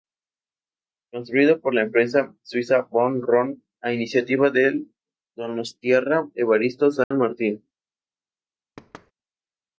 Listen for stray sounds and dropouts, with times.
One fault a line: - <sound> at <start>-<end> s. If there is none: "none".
- dropout at 7.0-7.1 s
- thud at 8.8-9.1 s